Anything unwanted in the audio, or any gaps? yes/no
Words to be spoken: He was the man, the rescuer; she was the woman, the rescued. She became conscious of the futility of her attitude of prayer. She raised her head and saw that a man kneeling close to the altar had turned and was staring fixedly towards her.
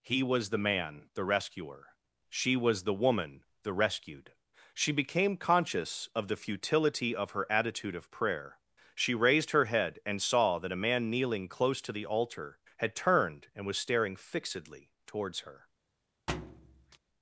yes